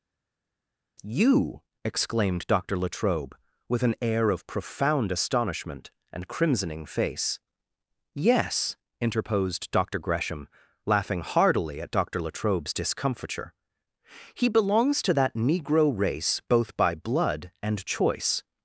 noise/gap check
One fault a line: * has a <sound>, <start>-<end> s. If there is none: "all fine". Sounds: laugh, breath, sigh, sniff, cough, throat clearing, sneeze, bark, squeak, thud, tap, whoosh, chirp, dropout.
all fine